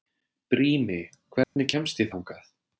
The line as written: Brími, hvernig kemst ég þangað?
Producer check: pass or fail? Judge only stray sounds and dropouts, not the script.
fail